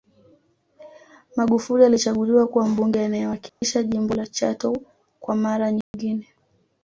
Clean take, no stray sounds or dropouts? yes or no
no